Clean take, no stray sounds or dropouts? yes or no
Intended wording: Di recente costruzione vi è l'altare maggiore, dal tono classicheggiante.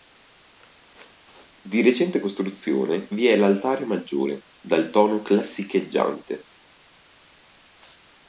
yes